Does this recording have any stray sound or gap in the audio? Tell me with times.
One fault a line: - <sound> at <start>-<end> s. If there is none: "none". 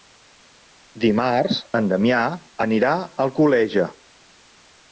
none